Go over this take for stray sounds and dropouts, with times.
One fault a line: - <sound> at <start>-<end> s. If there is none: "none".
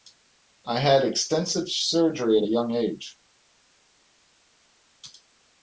none